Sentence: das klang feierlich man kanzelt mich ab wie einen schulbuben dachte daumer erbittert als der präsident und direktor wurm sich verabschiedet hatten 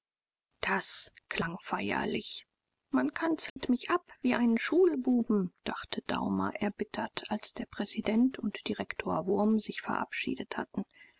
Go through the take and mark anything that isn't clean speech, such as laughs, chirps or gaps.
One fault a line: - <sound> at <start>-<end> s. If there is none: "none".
- dropout at 3.5-3.6 s